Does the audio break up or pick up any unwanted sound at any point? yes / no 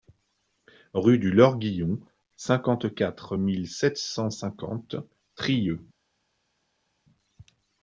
no